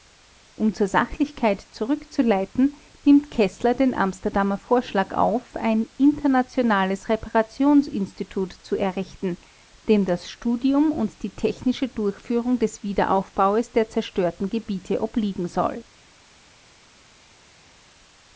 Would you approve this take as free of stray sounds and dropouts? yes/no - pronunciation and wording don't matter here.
yes